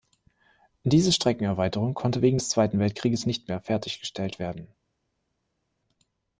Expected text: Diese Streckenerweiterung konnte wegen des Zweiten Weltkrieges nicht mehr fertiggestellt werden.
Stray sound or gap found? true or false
false